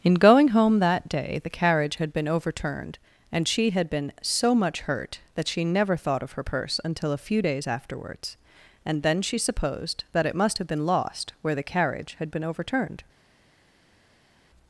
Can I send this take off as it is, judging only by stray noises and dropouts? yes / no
yes